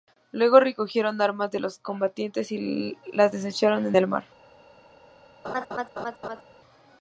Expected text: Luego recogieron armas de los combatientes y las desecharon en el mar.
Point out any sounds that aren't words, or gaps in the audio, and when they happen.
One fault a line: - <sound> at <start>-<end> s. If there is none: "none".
- laugh at 5.4-6.4 s